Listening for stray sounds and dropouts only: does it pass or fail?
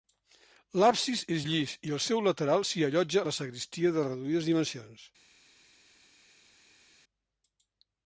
pass